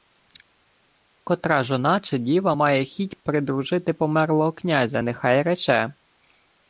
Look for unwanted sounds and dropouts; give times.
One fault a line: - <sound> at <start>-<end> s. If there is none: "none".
none